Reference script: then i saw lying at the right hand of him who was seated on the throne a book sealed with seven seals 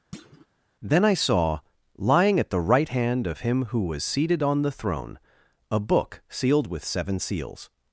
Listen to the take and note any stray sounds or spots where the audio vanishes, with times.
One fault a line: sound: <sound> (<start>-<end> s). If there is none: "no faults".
sound: thud (0.1-0.5 s)